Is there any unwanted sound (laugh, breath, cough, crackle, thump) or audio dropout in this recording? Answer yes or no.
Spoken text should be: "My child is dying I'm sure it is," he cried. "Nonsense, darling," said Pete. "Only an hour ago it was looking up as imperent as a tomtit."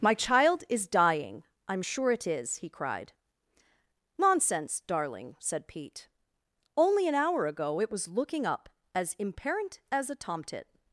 no